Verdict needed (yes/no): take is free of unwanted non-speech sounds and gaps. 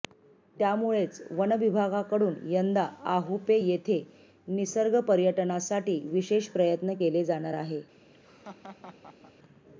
no